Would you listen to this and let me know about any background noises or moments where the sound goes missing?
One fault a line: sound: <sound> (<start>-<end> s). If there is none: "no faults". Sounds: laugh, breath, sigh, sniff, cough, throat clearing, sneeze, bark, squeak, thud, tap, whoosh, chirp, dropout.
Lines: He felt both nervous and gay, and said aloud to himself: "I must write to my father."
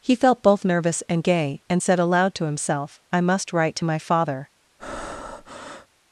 sound: breath (4.8-5.9 s)